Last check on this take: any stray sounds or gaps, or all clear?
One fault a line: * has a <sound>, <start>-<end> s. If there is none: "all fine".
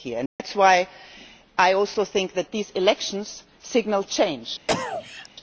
* has a dropout, 0.3-0.4 s
* has a cough, 4.7-5.3 s